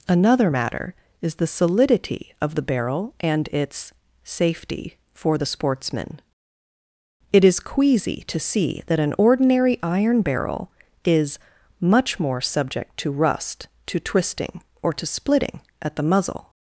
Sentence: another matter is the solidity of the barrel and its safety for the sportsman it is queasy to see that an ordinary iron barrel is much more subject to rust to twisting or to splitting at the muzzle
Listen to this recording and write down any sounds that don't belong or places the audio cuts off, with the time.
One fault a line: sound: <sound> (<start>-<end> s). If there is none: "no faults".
no faults